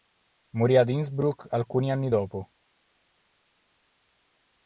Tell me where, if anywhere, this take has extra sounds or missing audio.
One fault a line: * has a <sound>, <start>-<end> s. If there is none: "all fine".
all fine